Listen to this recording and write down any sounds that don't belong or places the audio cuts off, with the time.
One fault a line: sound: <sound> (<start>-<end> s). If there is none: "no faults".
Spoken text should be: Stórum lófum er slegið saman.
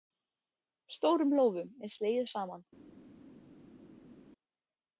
no faults